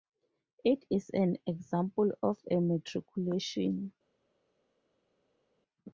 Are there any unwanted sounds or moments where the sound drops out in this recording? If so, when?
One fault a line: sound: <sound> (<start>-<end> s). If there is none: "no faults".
no faults